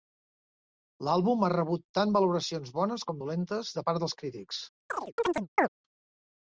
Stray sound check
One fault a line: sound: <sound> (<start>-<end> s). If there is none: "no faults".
sound: chirp (4.9-5.7 s)